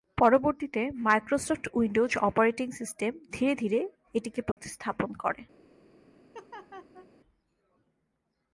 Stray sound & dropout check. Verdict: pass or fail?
fail